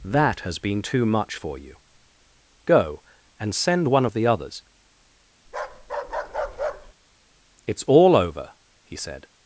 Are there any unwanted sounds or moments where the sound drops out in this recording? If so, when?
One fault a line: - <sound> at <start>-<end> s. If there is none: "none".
- bark at 5.5-6.9 s